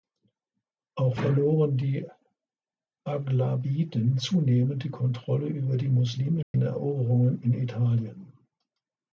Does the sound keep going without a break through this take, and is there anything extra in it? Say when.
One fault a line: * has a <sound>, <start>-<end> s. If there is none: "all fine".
* has a dropout, 6.4-6.5 s